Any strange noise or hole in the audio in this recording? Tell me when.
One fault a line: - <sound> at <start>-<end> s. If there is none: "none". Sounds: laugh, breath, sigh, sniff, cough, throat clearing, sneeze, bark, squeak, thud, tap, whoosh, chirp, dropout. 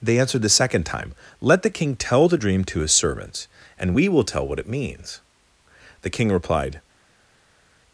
none